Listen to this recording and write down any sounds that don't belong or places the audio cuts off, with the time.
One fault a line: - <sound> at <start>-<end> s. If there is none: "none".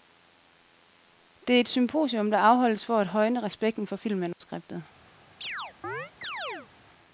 - dropout at 4.3-4.4 s
- chirp at 5.4-6.7 s